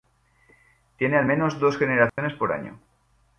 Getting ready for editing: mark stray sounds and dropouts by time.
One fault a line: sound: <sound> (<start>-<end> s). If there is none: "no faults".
sound: dropout (2.1-2.2 s)